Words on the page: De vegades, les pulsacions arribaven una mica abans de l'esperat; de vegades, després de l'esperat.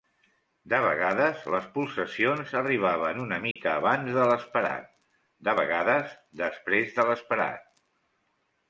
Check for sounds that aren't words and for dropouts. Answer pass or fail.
fail